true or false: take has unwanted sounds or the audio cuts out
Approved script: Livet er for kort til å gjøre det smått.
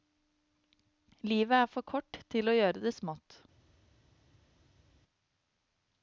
false